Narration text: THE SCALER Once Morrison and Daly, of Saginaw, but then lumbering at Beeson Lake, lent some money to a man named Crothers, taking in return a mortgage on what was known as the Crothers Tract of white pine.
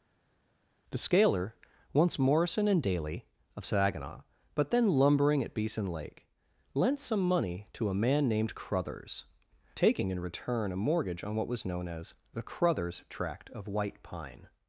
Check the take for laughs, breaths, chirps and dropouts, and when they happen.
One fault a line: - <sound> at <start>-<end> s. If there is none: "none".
none